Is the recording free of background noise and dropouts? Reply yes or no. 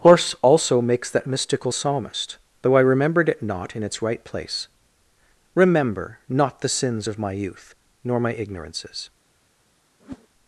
no